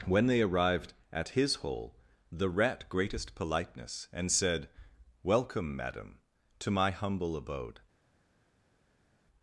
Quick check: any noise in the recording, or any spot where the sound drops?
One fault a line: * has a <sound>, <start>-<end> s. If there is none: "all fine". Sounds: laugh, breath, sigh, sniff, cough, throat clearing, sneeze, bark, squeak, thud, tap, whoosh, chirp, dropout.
all fine